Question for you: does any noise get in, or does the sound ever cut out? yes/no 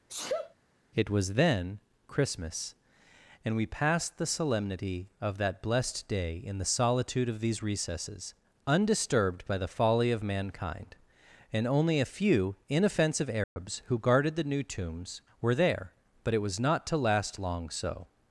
yes